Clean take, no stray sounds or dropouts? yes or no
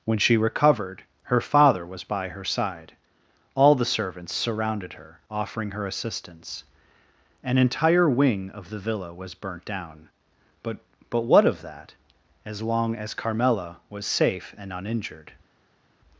yes